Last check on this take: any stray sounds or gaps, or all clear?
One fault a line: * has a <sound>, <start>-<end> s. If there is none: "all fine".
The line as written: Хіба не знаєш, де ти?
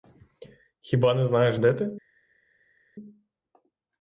all fine